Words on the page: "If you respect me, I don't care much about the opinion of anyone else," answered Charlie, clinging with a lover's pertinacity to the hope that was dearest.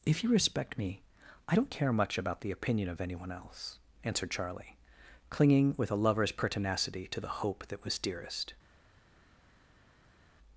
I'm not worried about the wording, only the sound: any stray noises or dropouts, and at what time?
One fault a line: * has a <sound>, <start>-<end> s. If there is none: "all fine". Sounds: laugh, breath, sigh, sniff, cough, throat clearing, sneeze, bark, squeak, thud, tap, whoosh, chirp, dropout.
all fine